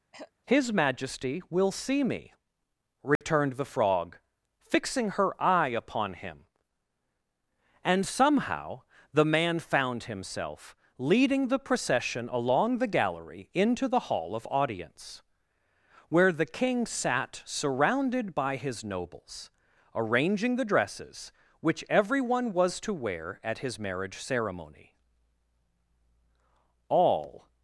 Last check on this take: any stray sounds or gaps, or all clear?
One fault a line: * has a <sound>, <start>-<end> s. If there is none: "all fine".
* has a throat clearing, 0.1-0.3 s
* has a dropout, 3.2-3.2 s